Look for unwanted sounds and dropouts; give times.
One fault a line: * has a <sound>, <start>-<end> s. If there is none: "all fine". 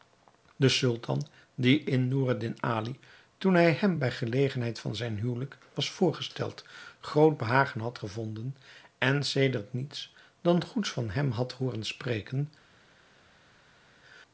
all fine